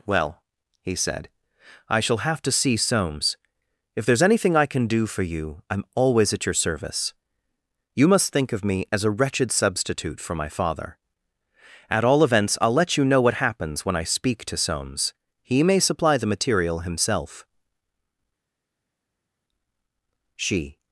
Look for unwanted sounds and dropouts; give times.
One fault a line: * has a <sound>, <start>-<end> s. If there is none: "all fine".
all fine